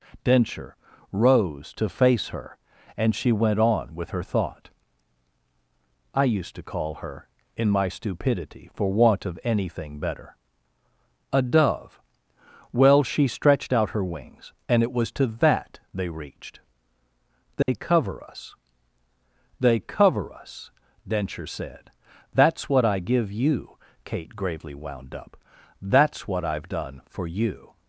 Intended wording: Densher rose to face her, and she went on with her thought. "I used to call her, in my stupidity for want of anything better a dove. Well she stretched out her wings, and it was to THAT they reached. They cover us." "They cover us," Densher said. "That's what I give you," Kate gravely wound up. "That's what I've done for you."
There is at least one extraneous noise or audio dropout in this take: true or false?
true